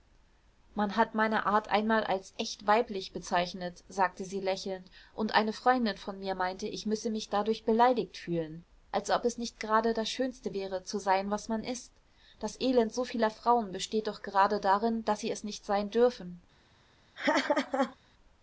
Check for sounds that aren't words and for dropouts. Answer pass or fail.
fail